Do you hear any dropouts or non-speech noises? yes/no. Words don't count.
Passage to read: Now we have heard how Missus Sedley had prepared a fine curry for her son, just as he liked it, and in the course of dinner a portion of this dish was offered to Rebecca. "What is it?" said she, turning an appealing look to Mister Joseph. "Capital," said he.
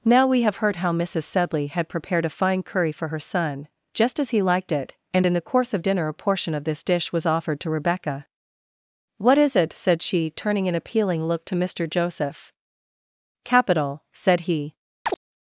yes